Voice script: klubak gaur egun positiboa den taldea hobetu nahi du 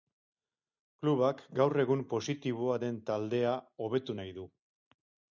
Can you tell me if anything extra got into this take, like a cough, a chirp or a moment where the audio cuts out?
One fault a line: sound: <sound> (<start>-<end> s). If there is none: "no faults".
no faults